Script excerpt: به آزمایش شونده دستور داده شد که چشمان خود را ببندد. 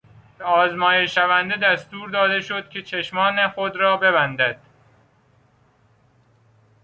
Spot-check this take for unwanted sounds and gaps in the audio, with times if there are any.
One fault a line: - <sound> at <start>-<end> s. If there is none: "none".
none